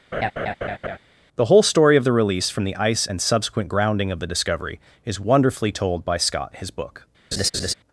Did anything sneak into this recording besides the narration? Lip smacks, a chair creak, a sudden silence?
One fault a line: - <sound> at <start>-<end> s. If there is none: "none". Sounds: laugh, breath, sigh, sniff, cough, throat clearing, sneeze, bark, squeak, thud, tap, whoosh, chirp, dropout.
- laugh at 0.1-1.0 s
- laugh at 7.3-7.7 s